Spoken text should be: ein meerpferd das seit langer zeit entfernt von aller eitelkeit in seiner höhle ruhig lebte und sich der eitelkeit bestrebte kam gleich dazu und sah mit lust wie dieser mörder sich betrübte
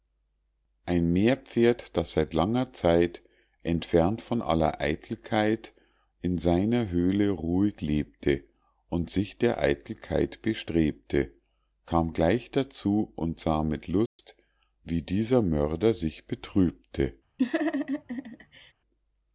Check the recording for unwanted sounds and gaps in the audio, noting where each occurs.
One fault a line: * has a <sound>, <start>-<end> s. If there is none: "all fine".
* has a dropout, 14.1-14.2 s
* has a laugh, 17.4-18.7 s